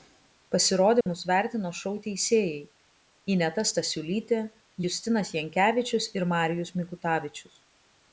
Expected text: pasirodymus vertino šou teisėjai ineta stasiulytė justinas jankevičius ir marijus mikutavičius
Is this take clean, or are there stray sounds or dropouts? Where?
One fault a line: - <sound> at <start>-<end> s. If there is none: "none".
- dropout at 1.0-1.1 s